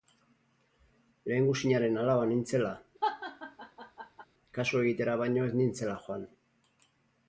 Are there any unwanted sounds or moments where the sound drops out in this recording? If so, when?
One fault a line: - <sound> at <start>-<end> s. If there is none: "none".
- laugh at 3.0-4.3 s